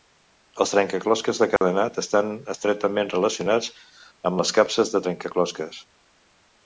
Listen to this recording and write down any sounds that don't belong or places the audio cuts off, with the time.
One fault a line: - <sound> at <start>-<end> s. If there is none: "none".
- dropout at 1.6-1.6 s